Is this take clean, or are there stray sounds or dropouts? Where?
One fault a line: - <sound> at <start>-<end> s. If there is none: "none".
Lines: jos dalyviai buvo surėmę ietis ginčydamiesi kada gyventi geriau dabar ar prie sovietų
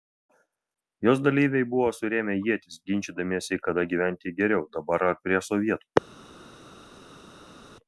none